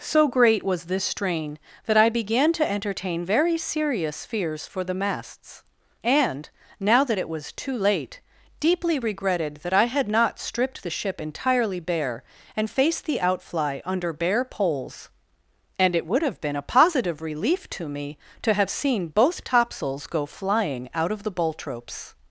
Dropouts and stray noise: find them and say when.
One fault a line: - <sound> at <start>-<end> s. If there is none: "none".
none